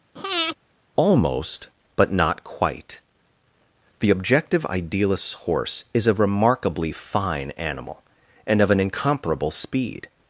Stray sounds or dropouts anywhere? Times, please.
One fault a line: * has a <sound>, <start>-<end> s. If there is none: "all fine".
* has a breath, 0.2-0.6 s